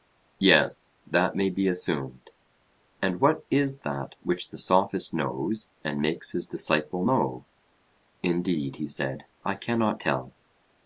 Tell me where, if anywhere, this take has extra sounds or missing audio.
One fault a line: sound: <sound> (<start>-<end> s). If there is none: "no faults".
no faults